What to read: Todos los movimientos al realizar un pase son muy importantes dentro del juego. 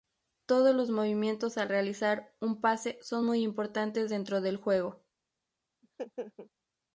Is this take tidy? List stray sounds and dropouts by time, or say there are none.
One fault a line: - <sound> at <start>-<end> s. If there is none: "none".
- laugh at 5.8-6.5 s